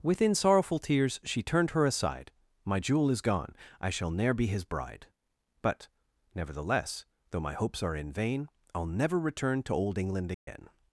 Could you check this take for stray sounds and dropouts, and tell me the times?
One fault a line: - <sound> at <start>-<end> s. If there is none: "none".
- dropout at 10.3-10.5 s